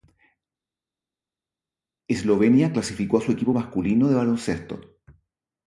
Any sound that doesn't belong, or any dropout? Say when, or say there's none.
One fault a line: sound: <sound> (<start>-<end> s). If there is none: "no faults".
no faults